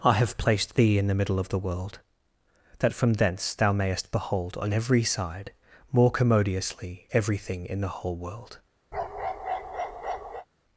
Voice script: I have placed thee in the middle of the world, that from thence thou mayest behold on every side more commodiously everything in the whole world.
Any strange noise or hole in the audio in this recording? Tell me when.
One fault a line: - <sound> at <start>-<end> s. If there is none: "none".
- bark at 8.9-10.5 s